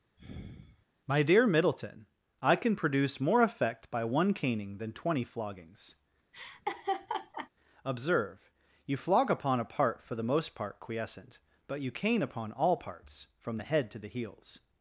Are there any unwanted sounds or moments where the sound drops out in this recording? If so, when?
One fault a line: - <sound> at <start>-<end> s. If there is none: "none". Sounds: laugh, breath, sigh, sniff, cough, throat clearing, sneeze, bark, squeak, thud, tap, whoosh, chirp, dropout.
- sigh at 0.2-0.9 s
- laugh at 6.3-7.5 s